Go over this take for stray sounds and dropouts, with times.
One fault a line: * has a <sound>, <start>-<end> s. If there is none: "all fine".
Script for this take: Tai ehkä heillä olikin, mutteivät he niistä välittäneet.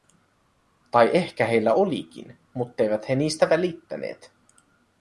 all fine